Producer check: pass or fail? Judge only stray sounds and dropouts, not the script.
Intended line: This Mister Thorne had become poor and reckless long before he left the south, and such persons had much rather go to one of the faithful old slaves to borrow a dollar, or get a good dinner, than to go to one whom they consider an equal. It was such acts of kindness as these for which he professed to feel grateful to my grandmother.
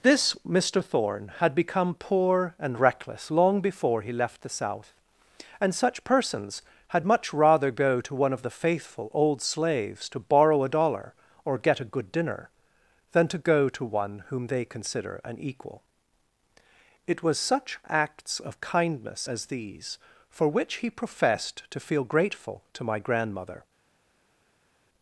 pass